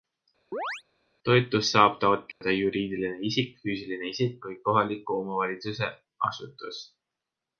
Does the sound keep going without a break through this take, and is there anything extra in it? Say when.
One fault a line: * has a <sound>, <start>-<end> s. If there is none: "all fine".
* has a chirp, 0.5-0.8 s
* has a dropout, 2.3-2.4 s